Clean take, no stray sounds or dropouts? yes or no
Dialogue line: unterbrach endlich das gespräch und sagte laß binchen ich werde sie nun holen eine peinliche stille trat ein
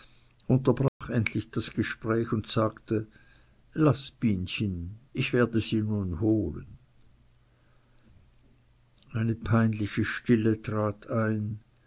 no